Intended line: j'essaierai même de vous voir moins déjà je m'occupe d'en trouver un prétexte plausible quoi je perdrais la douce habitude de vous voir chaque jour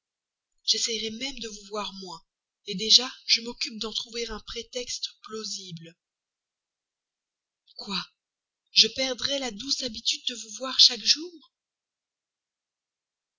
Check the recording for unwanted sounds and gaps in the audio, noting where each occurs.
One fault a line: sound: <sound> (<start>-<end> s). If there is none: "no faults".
no faults